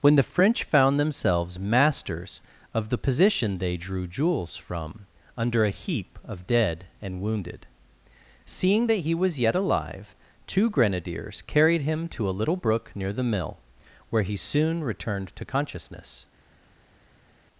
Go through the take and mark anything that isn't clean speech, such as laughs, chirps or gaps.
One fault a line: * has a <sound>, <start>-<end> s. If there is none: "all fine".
all fine